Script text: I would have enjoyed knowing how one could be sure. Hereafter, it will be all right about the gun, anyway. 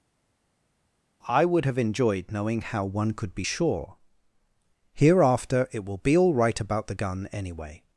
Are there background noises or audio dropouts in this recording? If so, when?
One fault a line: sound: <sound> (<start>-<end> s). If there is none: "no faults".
no faults